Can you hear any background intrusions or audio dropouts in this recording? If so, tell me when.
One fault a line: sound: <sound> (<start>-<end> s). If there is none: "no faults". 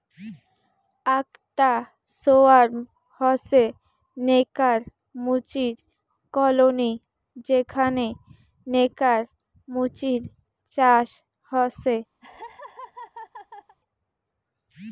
sound: laugh (12.2-13.8 s)